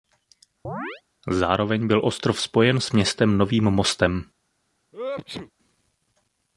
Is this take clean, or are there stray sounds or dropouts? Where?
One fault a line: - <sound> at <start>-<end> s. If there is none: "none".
- chirp at 0.6-1.0 s
- sneeze at 4.9-5.5 s